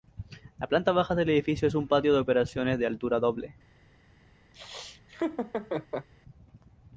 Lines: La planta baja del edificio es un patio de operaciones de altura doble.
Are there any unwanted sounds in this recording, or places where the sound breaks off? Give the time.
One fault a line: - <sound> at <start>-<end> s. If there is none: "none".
- laugh at 4.5-6.1 s